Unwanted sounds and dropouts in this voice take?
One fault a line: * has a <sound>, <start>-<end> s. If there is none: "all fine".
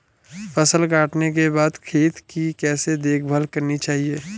all fine